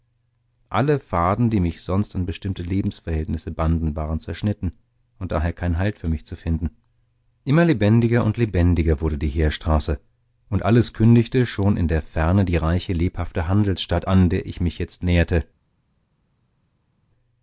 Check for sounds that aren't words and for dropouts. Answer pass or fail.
pass